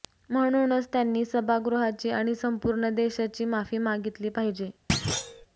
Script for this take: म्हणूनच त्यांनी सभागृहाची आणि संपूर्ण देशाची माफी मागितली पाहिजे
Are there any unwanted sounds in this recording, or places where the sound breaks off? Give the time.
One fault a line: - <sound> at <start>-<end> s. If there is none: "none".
- thud at 4.9-5.5 s